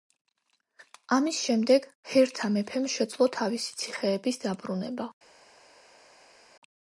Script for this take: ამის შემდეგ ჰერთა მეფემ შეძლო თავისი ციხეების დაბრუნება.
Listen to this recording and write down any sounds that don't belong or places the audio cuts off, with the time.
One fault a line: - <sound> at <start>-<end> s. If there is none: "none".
none